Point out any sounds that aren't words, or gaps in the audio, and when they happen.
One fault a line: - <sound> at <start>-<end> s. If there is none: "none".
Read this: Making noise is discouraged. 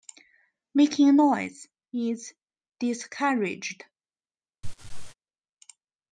- laugh at 4.6-5.1 s